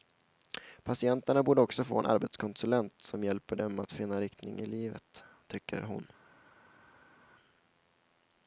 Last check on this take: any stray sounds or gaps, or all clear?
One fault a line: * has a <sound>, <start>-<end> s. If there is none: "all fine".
all fine